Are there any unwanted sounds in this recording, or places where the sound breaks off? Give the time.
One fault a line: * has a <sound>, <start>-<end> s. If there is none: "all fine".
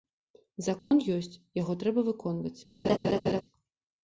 * has a dropout, 0.8-0.9 s
* has a laugh, 2.8-3.4 s